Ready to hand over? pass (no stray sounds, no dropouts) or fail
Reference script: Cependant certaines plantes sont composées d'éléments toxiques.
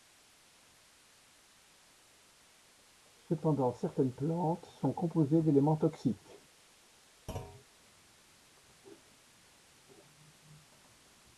fail